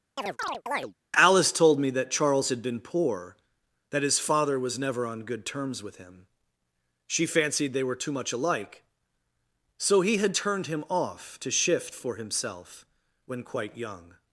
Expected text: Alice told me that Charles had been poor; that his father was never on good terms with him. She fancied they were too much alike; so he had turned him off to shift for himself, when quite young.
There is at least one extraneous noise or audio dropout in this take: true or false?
true